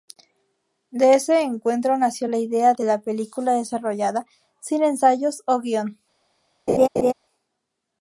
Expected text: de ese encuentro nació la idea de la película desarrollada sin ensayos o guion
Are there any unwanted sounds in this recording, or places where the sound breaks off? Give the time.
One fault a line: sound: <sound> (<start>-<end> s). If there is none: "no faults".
sound: laugh (6.7-7.1 s)